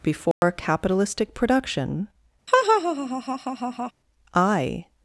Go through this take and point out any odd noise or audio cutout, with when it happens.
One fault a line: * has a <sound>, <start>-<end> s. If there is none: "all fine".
* has a dropout, 0.3-0.4 s
* has a laugh, 2.5-3.9 s